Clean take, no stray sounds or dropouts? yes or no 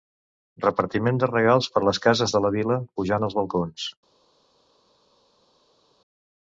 yes